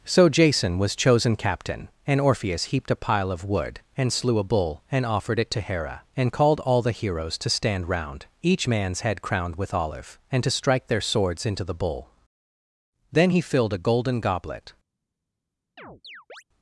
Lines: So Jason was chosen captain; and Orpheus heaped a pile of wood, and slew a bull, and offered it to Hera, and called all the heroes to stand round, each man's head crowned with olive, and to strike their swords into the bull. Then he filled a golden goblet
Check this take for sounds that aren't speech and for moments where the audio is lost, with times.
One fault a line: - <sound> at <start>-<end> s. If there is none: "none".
- chirp at 15.8-16.4 s